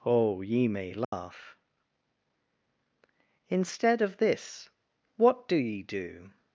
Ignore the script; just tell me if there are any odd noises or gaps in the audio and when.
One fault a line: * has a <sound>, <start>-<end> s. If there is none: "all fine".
* has a dropout, 1.0-1.1 s